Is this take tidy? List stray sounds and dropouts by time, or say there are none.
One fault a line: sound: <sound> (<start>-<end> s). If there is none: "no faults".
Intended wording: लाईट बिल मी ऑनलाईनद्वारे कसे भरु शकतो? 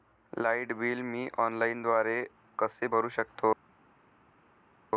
no faults